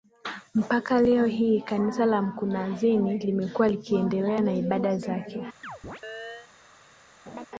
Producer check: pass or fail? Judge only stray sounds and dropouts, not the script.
fail